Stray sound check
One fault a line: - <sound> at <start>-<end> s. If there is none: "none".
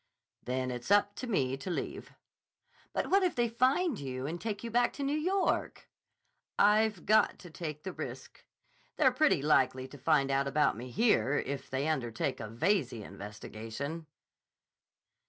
none